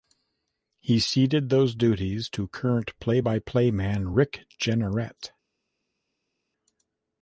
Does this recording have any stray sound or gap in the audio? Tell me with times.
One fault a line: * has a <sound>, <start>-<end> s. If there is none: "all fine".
all fine